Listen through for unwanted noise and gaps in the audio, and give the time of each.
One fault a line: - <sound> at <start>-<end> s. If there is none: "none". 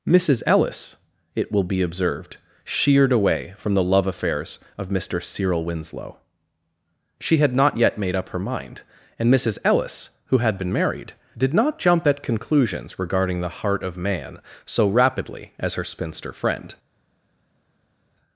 none